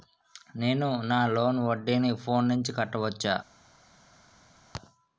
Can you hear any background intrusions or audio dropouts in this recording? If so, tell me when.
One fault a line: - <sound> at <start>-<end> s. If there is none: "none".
none